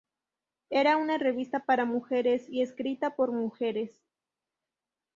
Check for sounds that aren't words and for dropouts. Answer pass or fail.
pass